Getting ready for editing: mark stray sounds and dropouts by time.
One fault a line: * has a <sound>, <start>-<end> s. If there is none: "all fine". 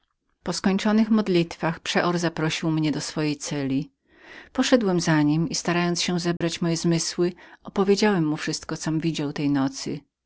* has a dropout, 6.4-6.4 s